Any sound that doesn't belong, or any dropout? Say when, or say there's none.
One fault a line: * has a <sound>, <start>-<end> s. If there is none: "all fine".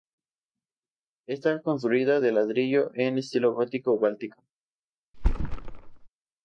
* has a thud, 5.1-6.1 s